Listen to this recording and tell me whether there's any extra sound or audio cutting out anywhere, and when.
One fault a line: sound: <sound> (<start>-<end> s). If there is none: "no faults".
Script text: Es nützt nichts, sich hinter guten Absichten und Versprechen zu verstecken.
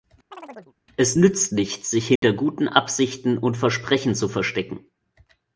sound: chirp (0.3-0.7 s)
sound: dropout (2.2-2.2 s)